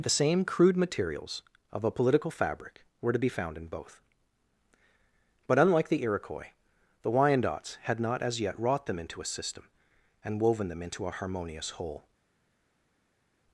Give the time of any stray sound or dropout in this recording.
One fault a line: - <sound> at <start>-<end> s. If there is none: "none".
none